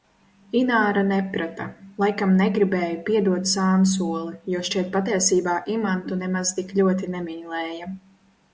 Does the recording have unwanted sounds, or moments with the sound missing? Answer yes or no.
no